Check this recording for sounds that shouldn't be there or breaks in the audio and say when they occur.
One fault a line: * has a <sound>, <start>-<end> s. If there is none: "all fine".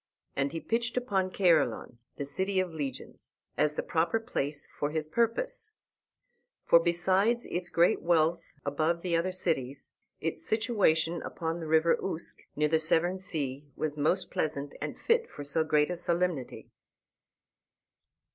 all fine